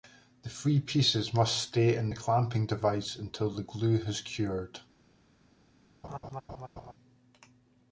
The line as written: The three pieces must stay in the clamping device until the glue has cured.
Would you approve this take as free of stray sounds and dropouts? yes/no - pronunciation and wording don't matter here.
no